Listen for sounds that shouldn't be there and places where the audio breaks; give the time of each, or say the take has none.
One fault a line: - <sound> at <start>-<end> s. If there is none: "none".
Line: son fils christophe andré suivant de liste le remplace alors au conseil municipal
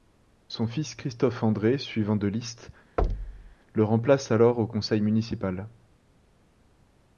- thud at 3.0-3.5 s